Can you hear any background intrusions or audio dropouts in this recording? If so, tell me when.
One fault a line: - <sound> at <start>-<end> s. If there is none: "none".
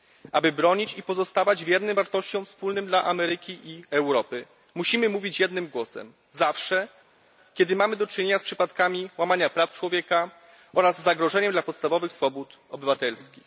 none